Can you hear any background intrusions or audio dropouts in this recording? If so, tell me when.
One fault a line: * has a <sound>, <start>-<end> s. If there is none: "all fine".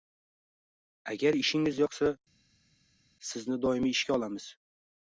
all fine